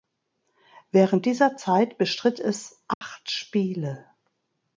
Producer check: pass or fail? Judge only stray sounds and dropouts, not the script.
fail